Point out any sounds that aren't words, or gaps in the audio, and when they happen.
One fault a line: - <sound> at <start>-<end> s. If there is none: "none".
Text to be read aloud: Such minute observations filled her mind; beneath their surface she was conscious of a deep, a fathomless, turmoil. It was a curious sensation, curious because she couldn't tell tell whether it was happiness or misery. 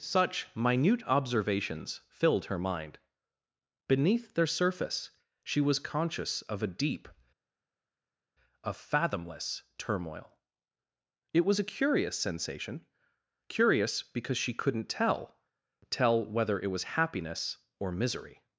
none